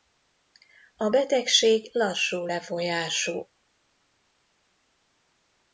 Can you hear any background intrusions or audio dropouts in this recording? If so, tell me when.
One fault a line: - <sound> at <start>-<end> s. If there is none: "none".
none